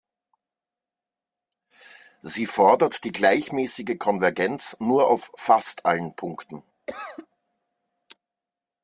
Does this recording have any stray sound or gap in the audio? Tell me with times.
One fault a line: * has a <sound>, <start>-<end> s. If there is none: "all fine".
* has a cough, 6.9-7.3 s